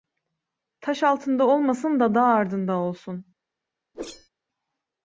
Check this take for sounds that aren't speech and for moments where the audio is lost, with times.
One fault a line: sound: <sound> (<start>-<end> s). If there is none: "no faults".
sound: whoosh (3.9-4.3 s)